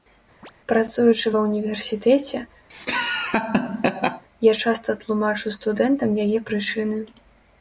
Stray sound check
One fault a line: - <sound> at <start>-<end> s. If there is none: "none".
- chirp at 0.4-0.5 s
- laugh at 2.7-4.2 s